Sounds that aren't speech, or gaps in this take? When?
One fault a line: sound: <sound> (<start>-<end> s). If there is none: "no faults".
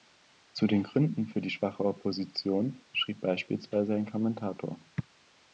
no faults